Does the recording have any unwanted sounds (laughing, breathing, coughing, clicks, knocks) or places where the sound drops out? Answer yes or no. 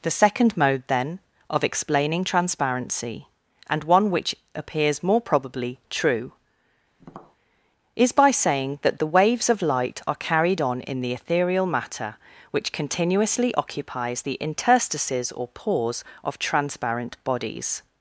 yes